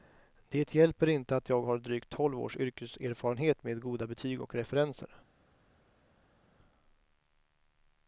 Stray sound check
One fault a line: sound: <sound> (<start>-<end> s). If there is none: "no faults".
no faults